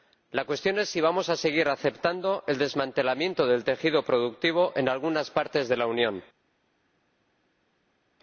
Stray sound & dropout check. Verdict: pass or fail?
pass